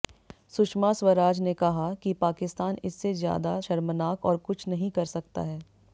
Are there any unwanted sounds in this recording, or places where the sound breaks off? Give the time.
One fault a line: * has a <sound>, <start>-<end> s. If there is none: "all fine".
all fine